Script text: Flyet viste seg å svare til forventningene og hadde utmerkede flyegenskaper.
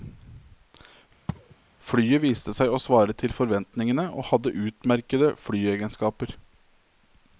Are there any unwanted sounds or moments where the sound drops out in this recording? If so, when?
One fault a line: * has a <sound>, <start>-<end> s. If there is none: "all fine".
* has a sneeze, 1.3-1.6 s